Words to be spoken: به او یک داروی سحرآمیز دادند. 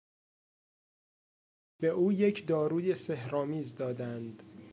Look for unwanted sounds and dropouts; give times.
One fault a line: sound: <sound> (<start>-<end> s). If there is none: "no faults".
no faults